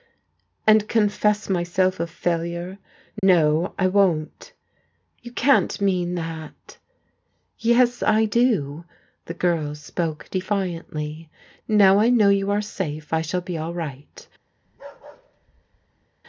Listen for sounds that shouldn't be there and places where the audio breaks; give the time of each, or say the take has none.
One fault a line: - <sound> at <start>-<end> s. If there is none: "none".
- dropout at 3.2-3.2 s
- bark at 14.7-16.1 s